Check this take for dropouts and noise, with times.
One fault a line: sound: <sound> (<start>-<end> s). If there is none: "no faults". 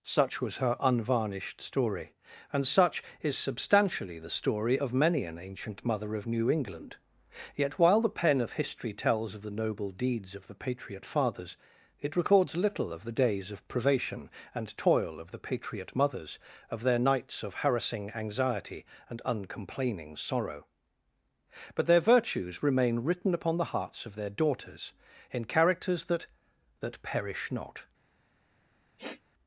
sound: sniff (29.0-29.2 s)